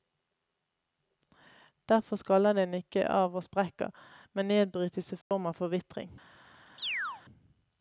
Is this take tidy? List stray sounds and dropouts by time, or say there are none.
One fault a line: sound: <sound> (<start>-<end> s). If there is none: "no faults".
sound: dropout (5.2-5.3 s)
sound: chirp (6.8-7.2 s)